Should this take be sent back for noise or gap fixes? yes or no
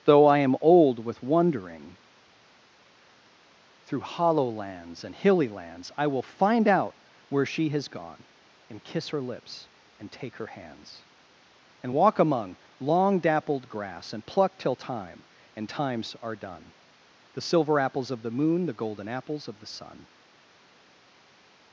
no